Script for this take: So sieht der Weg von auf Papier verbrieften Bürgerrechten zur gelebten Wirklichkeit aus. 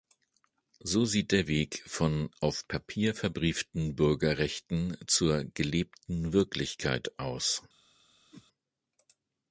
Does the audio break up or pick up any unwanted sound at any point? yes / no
yes